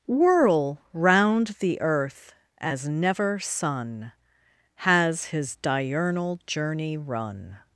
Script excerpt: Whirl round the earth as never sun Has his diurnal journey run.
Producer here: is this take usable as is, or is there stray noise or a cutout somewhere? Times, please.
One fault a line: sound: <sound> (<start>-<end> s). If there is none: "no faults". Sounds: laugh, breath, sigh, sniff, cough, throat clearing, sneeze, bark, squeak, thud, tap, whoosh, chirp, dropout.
no faults